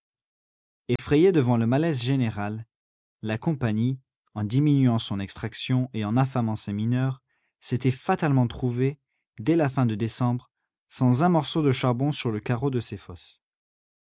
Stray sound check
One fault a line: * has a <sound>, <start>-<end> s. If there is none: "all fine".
* has a dropout, 1.0-1.0 s